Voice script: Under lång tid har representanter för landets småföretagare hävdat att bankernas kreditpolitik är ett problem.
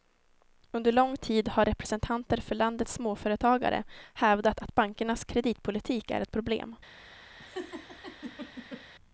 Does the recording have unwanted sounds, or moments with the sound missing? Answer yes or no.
yes